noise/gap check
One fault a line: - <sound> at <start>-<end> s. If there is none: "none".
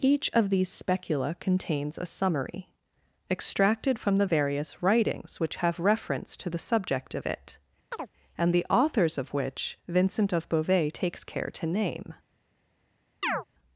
- chirp at 7.9-8.1 s
- chirp at 13.2-13.4 s